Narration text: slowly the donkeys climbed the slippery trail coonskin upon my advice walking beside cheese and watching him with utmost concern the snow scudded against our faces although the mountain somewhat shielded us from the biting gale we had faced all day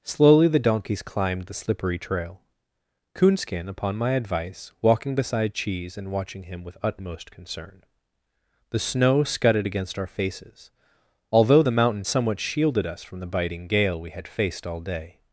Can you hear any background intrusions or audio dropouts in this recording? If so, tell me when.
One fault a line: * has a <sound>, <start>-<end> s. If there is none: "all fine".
all fine